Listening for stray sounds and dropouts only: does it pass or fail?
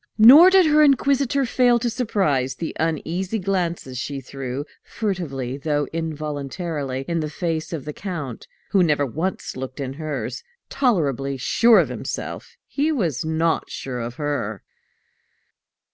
pass